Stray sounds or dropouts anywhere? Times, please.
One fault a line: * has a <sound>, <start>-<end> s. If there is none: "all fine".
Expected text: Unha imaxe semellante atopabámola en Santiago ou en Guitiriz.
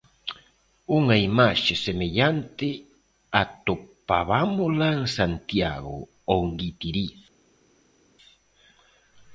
all fine